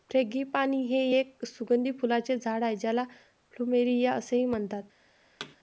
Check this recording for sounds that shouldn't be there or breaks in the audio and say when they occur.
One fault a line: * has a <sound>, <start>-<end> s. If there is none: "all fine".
* has a thud, 5.4-5.6 s